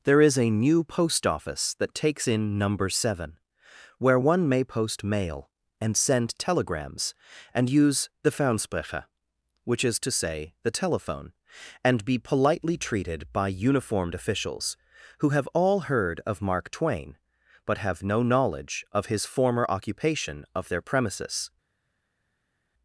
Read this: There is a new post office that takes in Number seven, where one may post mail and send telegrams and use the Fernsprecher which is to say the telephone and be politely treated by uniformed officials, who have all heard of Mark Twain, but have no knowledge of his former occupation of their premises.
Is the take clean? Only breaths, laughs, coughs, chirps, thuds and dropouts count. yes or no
yes